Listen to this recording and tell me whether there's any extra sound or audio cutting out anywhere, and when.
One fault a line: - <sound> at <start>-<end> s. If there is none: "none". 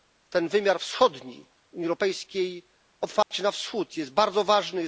- dropout at 3.2-3.3 s